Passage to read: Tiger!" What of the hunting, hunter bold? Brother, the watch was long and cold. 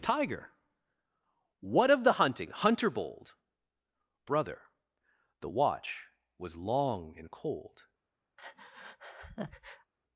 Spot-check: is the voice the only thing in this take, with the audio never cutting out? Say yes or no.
no